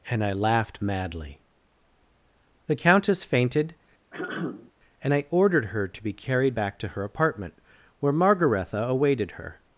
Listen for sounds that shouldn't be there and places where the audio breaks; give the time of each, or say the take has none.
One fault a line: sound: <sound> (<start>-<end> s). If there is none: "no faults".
sound: throat clearing (4.1-4.7 s)